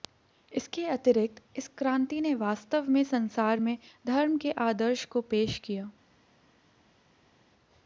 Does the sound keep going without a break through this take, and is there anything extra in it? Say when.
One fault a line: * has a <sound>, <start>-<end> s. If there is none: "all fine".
all fine